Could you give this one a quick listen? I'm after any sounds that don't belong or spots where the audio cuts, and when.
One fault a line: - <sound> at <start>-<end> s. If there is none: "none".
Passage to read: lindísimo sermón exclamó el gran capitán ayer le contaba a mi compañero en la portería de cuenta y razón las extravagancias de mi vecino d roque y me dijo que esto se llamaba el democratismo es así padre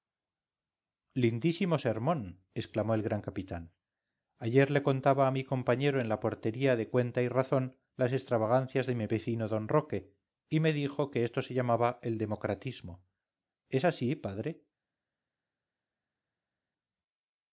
none